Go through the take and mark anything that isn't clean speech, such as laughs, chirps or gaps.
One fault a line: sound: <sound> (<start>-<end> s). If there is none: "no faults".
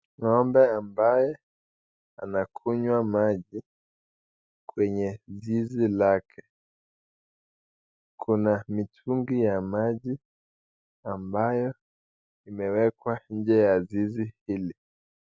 no faults